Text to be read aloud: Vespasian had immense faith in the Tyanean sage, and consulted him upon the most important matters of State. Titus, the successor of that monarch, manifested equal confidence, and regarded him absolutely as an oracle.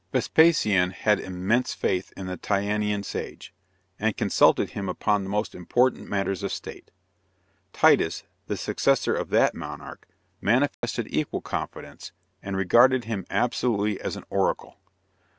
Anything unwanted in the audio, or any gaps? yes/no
yes